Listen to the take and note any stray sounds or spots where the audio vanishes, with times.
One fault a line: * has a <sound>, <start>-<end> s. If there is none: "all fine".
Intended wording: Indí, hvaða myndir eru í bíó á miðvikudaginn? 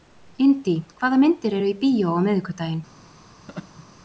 * has a laugh, 3.5-3.9 s